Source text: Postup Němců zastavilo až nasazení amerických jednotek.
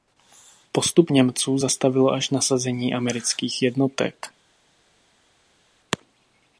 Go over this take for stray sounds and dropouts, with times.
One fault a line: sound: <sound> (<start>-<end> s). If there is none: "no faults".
no faults